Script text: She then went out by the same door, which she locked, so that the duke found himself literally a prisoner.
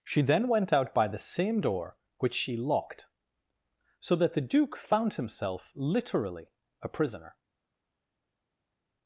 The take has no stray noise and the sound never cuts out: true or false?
true